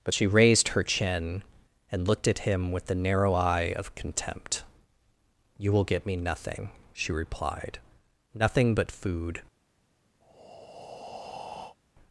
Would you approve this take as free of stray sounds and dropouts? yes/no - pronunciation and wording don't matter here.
no